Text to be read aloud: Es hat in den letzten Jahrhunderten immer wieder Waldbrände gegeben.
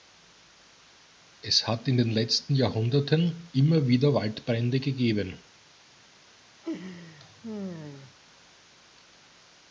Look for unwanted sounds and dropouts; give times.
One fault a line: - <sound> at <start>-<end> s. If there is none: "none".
- laugh at 6.6-8.1 s